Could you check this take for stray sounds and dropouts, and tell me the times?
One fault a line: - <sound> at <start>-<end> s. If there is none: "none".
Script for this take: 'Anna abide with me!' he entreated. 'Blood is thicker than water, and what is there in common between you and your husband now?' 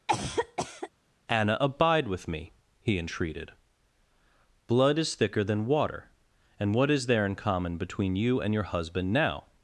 - cough at 0.1-0.9 s